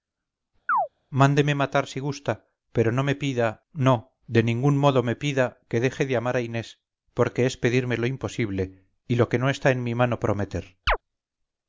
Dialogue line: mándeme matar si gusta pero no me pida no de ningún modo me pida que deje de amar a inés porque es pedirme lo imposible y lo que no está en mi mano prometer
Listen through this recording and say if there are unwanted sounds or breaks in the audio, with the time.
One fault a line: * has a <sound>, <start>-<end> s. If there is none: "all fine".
* has a chirp, 0.7-0.9 s
* has a chirp, 10.9-11.0 s